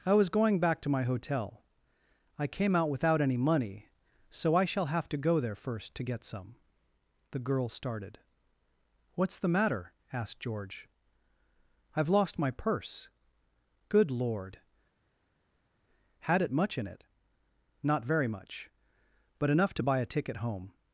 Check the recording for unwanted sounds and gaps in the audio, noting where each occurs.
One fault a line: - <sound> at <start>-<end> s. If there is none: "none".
none